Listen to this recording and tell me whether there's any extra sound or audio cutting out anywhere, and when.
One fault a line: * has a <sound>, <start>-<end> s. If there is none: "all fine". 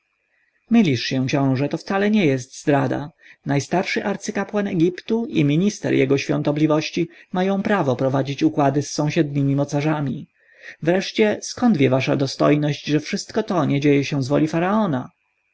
all fine